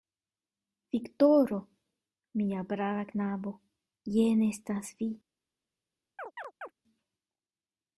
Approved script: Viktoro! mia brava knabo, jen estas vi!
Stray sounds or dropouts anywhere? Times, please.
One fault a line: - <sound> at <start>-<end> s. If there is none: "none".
- chirp at 6.2-6.7 s